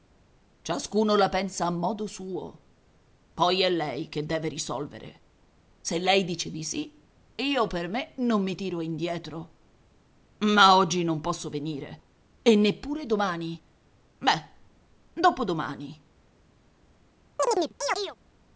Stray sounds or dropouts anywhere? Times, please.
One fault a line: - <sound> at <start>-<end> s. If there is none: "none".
- chirp at 17.4-18.2 s